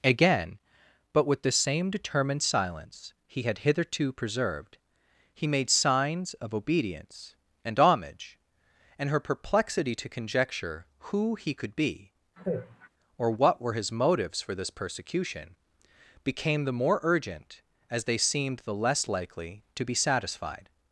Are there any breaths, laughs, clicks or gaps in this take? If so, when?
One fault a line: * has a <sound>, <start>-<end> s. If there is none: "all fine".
* has a sigh, 12.4-12.9 s